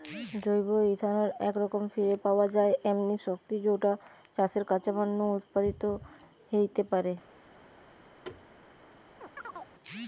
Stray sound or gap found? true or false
true